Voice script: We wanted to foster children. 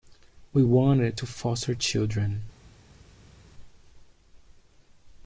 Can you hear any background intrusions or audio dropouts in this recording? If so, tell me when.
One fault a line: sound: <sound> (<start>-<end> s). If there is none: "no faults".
no faults